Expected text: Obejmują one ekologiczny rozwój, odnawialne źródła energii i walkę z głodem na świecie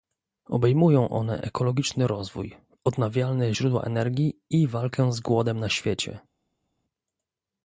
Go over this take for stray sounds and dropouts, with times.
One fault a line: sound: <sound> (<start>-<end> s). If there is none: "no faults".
no faults